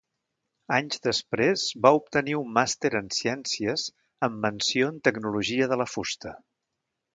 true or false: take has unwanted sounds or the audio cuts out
false